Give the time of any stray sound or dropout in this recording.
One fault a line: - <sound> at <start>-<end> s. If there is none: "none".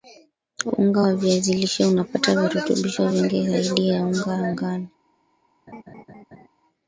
- laugh at 5.7-6.5 s